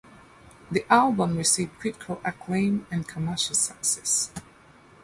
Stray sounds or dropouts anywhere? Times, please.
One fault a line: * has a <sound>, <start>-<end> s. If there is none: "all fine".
all fine